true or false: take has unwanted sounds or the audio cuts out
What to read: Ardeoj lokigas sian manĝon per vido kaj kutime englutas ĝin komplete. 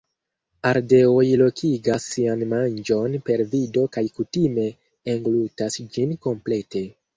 false